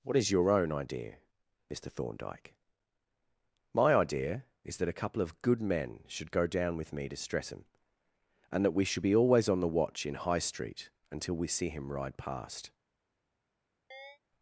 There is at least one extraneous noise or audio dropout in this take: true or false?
true